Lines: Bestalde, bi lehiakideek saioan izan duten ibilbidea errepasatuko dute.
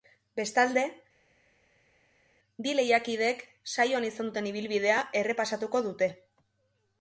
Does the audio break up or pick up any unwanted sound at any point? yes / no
no